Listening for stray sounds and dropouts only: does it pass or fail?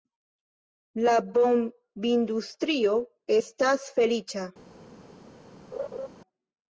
fail